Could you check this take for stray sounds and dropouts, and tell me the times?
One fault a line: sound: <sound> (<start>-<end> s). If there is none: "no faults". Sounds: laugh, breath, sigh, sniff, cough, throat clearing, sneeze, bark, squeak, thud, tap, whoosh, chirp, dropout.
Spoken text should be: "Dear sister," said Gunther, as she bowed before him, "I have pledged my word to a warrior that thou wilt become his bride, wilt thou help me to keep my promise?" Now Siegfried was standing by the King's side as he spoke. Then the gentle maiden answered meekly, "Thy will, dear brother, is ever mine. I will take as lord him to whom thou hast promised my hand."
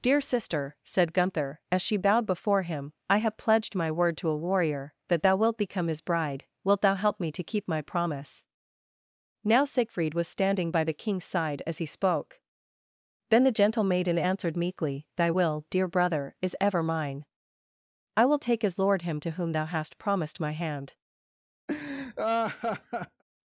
sound: laugh (21.7-23.2 s)